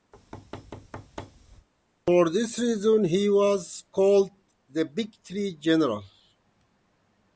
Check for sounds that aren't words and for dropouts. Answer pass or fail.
fail